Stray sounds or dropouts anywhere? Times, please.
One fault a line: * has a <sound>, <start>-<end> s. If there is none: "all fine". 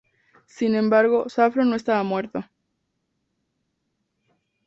all fine